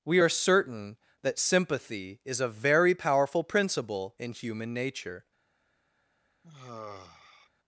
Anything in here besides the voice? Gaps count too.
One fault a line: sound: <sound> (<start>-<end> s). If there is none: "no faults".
sound: sigh (6.4-7.5 s)